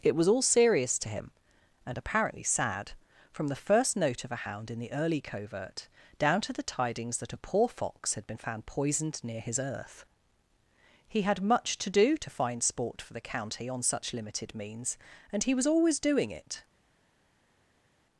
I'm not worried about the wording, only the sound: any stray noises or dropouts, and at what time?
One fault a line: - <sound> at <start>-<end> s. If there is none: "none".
none